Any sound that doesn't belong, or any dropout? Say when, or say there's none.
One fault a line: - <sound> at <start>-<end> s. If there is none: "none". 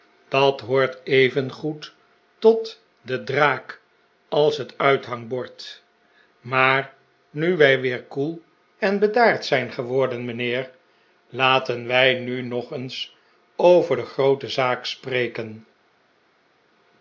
none